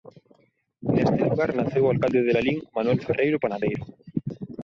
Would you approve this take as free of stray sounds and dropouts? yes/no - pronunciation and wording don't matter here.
yes